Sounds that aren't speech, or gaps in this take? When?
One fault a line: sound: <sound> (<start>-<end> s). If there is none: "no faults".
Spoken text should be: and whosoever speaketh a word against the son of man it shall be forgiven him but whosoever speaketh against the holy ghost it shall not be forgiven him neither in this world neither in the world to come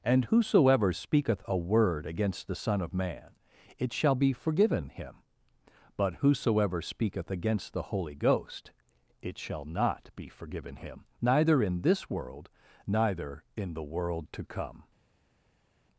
no faults